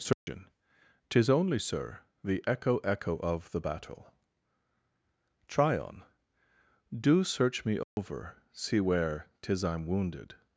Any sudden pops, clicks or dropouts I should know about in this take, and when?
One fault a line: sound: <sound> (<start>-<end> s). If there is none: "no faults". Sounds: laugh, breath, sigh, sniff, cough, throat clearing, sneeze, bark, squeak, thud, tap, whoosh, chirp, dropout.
sound: dropout (0.1-0.3 s)
sound: dropout (7.8-8.0 s)